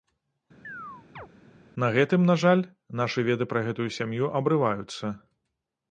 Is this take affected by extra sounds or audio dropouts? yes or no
yes